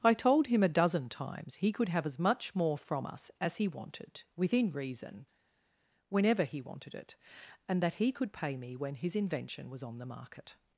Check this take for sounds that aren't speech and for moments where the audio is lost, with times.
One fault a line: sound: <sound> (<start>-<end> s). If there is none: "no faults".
no faults